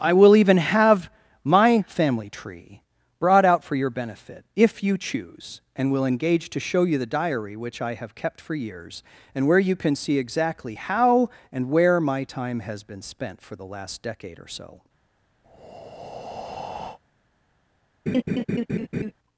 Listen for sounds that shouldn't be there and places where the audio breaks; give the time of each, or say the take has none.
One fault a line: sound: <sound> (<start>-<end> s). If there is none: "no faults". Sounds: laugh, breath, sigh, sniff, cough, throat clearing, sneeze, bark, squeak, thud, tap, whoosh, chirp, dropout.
sound: breath (15.4-17.0 s)
sound: laugh (18.1-19.1 s)